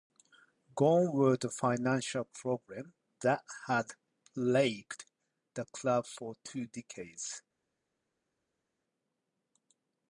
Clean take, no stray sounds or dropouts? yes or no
yes